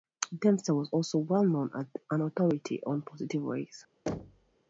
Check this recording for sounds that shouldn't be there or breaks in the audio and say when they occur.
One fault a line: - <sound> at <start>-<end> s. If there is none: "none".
- thud at 4.1-4.6 s